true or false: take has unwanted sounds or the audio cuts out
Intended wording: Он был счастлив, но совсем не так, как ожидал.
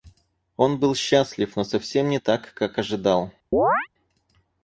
true